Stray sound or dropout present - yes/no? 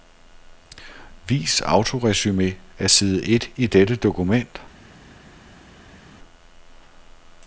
no